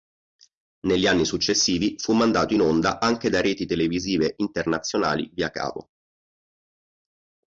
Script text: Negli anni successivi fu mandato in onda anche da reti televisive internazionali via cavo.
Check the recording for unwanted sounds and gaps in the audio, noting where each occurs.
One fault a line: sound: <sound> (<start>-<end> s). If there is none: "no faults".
no faults